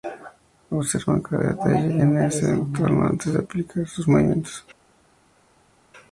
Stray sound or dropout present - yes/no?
no